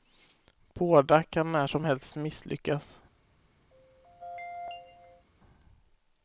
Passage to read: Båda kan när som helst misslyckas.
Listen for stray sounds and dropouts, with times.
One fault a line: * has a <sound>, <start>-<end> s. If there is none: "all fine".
* has a throat clearing, 3.7-5.2 s